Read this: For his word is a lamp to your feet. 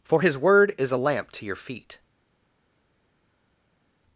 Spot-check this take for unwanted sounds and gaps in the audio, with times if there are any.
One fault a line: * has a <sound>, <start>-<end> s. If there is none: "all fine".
all fine